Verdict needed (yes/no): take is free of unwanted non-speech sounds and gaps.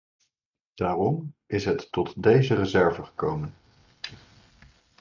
yes